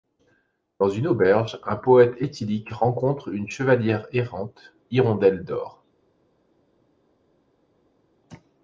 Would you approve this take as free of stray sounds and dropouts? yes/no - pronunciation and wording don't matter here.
yes